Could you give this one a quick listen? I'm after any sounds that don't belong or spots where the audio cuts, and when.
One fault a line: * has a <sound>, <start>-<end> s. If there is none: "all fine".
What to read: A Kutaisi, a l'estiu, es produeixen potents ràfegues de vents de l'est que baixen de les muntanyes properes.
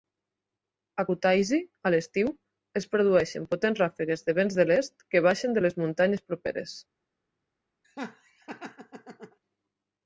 * has a laugh, 7.8-9.4 s